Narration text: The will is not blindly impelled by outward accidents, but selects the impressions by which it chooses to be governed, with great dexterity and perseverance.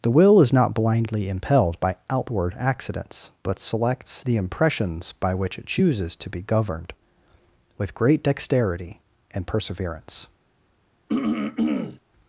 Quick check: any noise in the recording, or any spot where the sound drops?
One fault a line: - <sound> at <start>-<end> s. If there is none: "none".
- throat clearing at 11.1-12.0 s